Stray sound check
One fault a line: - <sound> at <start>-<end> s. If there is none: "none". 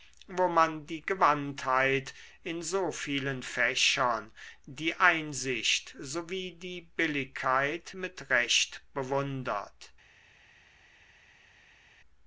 none